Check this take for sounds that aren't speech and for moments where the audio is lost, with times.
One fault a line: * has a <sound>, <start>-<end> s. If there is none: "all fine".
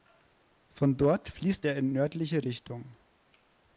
all fine